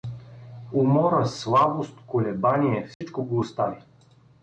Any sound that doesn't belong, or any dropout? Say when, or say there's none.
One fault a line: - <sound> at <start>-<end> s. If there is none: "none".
- dropout at 2.9-3.0 s